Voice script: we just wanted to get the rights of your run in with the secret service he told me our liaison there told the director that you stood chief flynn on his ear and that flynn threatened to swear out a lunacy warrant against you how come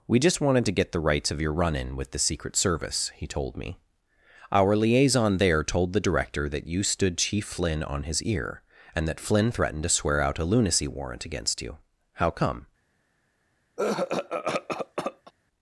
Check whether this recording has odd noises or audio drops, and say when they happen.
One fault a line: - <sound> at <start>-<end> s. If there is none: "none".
- cough at 13.8-15.3 s